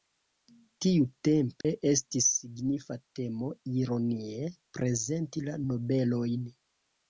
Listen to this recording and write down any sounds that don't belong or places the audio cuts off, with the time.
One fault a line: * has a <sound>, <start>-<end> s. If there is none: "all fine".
* has a dropout, 1.6-1.6 s